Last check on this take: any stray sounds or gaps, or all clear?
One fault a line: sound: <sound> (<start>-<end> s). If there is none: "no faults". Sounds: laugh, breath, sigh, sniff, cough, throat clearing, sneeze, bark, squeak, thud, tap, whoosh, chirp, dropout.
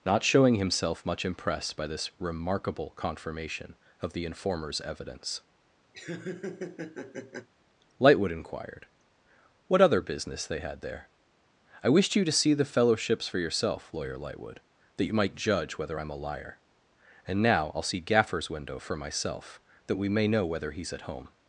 sound: laugh (5.9-7.5 s)